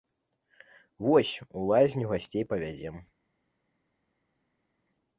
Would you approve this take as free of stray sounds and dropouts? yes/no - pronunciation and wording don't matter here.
yes